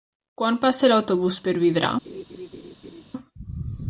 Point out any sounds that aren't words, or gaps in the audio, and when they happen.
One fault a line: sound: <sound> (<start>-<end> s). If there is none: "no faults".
sound: laugh (2.0-3.0 s)